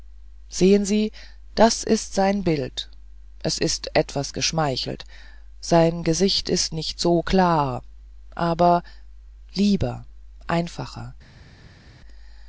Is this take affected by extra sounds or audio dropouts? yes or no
no